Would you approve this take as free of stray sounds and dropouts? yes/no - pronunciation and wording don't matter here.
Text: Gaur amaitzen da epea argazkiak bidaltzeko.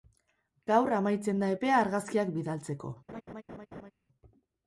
no